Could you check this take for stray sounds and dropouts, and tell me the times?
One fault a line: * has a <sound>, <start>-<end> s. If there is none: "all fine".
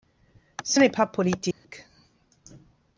* has a dropout, 1.5-1.6 s